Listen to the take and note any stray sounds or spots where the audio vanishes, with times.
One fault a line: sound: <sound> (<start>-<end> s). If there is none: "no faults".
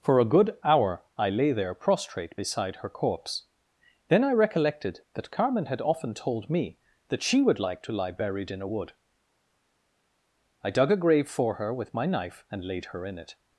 no faults